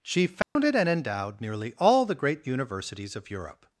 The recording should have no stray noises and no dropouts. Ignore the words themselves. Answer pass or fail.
fail